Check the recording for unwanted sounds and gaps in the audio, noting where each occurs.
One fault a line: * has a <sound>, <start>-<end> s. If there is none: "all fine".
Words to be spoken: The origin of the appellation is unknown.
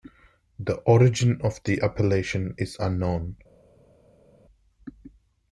all fine